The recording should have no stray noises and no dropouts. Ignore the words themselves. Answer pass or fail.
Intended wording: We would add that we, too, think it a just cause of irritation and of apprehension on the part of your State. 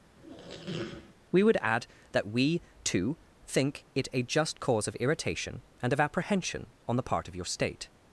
fail